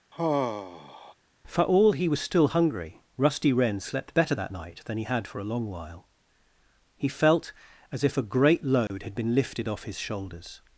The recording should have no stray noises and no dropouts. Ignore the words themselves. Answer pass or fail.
fail